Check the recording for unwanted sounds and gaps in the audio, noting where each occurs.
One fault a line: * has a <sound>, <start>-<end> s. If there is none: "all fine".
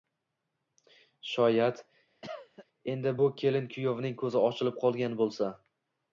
* has a cough, 2.2-2.7 s